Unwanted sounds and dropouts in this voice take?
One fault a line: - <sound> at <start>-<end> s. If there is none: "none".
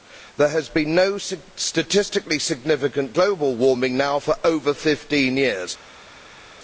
none